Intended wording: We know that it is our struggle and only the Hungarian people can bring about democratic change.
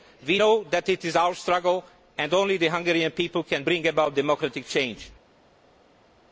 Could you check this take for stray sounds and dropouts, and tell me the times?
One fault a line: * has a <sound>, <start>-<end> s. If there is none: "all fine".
all fine